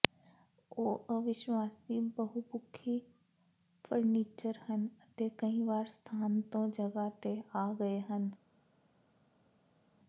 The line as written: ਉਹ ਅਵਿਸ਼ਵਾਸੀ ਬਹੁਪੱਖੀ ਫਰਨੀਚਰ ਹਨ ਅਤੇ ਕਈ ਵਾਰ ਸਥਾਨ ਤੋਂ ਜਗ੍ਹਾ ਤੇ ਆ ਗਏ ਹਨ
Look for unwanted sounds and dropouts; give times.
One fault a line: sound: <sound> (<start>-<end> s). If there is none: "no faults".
no faults